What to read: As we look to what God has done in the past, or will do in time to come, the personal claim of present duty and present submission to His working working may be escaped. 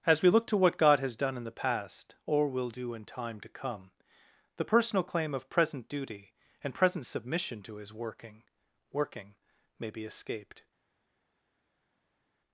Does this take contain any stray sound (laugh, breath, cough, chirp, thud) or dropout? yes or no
no